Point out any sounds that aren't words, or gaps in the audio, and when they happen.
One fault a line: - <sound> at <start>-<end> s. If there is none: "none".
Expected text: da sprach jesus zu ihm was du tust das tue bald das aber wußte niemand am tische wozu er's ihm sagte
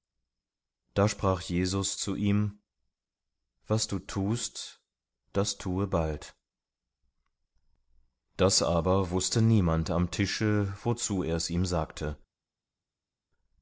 none